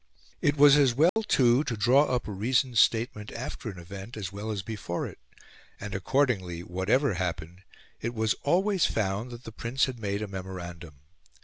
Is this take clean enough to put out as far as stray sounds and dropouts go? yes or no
no